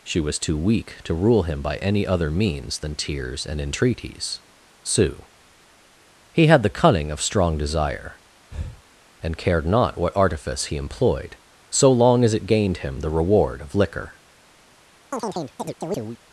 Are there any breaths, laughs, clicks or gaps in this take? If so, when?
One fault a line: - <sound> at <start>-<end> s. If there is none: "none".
- breath at 8.5-8.8 s
- chirp at 15.1-16.2 s